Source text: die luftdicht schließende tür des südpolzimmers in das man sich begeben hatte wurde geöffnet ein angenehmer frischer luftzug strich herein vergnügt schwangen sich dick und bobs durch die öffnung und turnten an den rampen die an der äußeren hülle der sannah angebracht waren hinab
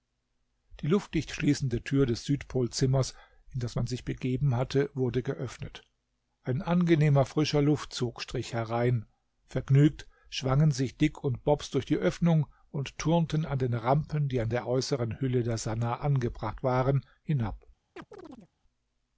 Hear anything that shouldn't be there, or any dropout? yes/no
yes